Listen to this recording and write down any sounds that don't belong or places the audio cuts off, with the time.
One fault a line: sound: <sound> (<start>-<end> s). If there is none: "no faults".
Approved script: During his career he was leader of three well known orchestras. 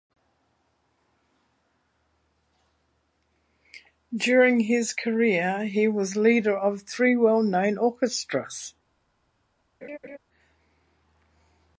sound: laugh (9.8-10.2 s)